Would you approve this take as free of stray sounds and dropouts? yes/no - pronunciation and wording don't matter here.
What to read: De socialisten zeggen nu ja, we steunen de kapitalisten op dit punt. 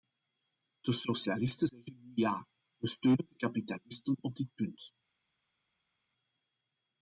yes